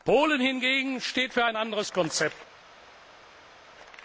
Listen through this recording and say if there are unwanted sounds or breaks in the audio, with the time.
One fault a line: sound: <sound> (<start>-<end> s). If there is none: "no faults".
no faults